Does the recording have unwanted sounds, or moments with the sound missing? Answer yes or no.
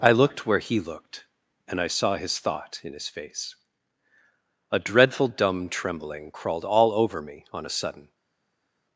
no